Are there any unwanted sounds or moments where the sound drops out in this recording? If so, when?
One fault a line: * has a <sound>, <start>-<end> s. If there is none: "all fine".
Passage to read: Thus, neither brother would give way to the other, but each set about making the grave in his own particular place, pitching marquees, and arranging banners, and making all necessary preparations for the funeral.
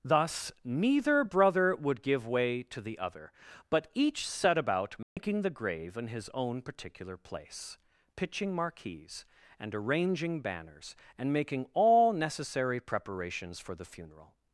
* has a dropout, 5.0-5.2 s